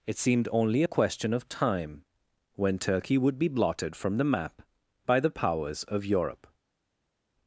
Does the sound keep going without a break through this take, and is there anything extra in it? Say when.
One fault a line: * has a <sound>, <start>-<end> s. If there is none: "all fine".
all fine